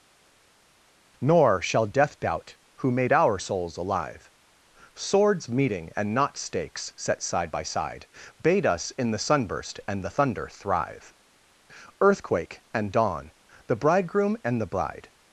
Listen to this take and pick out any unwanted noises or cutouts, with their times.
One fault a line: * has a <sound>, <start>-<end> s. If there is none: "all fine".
all fine